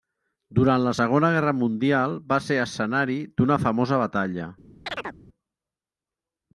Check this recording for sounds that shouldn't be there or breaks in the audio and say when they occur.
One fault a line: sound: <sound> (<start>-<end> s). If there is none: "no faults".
sound: chirp (4.9-5.2 s)